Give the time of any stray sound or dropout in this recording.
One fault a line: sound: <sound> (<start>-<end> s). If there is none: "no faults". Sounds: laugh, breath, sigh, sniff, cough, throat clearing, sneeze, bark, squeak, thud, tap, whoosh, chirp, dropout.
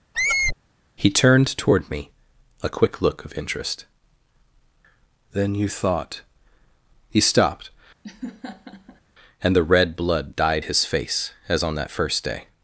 sound: squeak (0.1-0.6 s)
sound: laugh (8.0-9.0 s)